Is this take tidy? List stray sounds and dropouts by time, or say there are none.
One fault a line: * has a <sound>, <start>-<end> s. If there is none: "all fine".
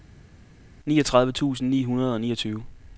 all fine